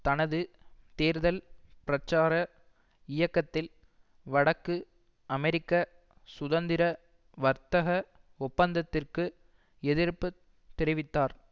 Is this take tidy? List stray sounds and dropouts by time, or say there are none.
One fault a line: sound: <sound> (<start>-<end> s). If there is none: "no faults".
no faults